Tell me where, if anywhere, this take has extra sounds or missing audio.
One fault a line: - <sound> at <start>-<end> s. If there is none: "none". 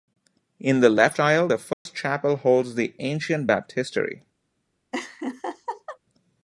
- dropout at 1.7-1.9 s
- laugh at 4.9-6.0 s